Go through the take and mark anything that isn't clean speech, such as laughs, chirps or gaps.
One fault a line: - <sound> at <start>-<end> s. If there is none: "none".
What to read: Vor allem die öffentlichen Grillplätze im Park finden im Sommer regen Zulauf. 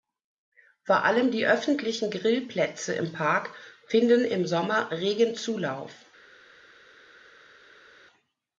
none